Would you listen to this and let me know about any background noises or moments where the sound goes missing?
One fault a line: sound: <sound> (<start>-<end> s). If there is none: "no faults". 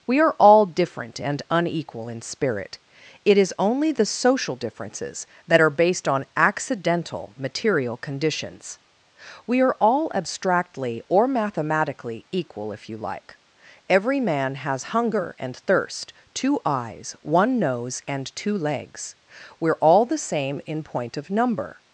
no faults